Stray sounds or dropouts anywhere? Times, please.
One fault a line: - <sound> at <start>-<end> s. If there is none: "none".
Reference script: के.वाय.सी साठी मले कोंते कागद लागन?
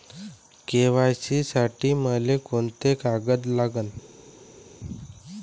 none